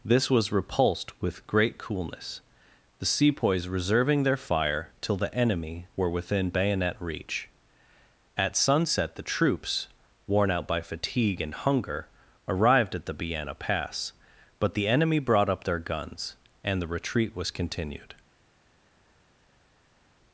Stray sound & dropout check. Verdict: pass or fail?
pass